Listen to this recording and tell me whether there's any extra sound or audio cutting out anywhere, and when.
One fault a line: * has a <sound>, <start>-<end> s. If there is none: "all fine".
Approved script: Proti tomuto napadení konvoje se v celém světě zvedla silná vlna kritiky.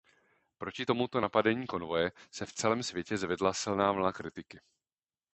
all fine